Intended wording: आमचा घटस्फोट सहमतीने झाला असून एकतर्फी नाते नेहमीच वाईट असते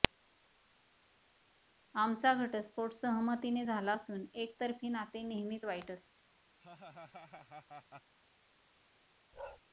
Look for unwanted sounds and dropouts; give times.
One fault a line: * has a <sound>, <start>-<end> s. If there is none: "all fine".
* has a laugh, 6.6-8.1 s
* has a bark, 9.3-9.6 s